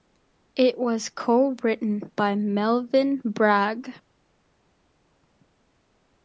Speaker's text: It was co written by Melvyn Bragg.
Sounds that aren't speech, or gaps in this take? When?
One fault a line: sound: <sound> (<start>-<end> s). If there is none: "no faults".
no faults